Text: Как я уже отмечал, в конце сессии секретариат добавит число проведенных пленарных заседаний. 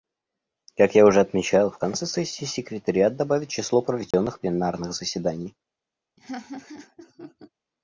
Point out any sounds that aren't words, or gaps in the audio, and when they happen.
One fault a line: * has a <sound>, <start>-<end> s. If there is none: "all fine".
* has a dropout, 4.1-4.1 s
* has a laugh, 6.2-7.5 s